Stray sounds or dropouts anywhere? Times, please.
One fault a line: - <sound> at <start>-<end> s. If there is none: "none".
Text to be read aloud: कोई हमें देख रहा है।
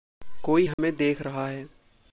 - dropout at 0.7-0.8 s